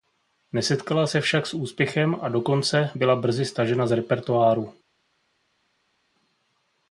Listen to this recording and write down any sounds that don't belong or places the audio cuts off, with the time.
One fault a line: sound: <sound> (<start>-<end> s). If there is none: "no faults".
no faults